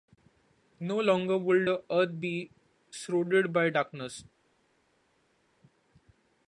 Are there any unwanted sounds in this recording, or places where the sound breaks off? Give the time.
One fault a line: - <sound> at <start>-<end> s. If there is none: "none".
none